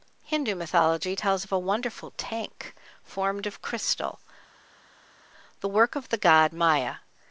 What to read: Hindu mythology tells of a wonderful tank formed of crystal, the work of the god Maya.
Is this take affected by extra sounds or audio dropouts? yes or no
no